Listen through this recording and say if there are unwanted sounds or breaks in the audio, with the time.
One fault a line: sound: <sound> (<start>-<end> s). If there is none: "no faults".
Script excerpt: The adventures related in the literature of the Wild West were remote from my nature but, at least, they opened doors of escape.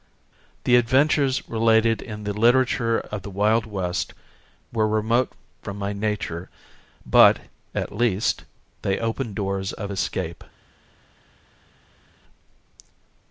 no faults